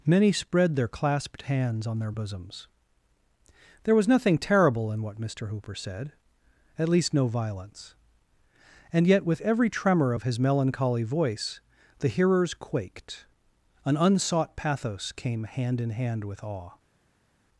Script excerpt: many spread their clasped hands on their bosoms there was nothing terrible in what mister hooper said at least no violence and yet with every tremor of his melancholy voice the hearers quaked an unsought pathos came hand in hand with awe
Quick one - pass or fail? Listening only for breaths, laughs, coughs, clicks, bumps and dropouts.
pass